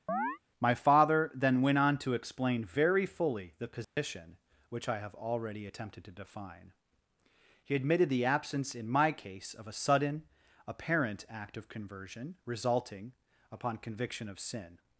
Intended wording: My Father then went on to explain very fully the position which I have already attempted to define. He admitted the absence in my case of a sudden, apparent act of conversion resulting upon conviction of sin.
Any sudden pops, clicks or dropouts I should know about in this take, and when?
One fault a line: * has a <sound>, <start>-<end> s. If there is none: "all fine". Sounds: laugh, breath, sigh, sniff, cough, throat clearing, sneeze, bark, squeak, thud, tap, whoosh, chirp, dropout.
* has a chirp, 0.1-0.4 s
* has a dropout, 3.8-4.0 s